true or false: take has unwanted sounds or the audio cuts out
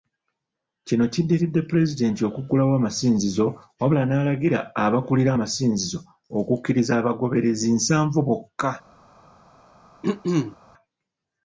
true